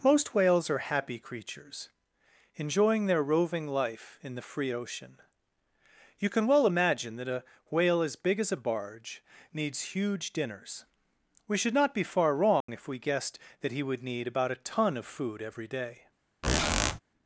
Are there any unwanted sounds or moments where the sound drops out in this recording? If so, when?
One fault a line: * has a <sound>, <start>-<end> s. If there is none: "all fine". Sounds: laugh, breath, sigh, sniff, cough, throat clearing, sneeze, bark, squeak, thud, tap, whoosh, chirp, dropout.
* has a dropout, 12.6-12.7 s
* has a squeak, 16.4-17.0 s